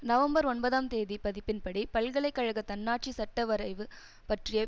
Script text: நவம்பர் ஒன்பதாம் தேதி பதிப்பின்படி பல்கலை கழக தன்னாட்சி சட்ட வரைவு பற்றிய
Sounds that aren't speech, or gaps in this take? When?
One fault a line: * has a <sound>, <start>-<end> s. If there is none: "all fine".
all fine